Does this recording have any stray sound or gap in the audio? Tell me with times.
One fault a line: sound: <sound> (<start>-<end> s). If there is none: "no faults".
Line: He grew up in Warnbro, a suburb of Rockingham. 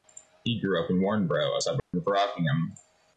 sound: dropout (1.8-1.9 s)